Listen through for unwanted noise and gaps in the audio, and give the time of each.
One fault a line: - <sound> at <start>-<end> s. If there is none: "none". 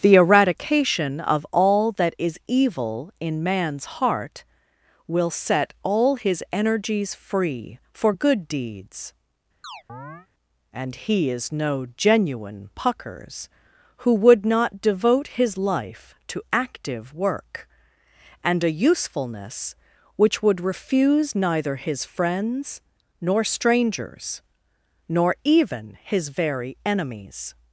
- chirp at 9.6-10.3 s